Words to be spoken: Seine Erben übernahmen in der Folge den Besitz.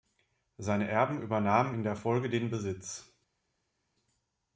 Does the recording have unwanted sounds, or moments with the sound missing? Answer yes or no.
no